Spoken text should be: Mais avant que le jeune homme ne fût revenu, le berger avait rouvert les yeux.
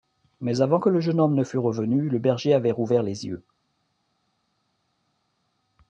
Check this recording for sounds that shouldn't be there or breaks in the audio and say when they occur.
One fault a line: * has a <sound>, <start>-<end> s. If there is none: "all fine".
all fine